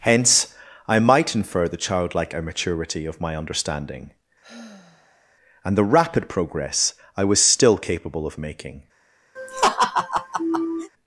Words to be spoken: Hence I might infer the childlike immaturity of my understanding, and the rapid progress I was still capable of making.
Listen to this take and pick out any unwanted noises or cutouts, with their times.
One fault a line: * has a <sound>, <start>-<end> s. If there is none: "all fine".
* has a sigh, 4.4-5.4 s
* has a laugh, 9.4-10.9 s